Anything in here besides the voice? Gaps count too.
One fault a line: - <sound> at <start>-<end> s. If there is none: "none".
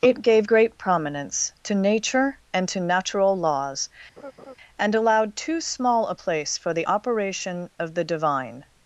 - laugh at 4.2-4.5 s